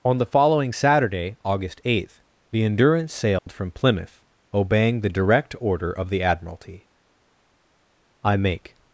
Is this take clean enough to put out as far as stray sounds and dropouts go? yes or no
no